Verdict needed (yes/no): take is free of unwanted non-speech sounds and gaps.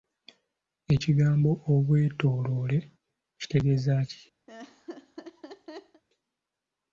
no